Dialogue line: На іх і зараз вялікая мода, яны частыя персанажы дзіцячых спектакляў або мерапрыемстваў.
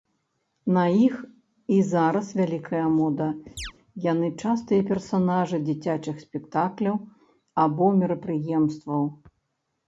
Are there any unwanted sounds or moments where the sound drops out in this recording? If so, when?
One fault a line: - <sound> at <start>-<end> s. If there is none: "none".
- chirp at 3.6-3.7 s